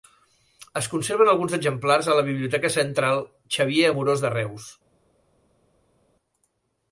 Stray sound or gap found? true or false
false